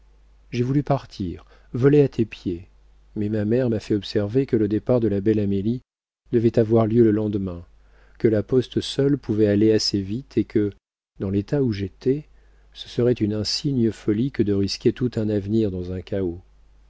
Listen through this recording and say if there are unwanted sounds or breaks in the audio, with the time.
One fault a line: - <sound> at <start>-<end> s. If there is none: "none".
none